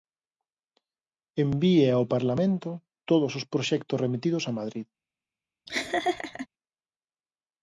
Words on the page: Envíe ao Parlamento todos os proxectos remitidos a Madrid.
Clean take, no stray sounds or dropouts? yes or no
no